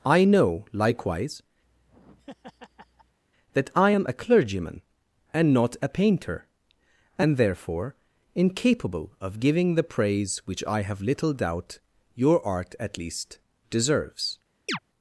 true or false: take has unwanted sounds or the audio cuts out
true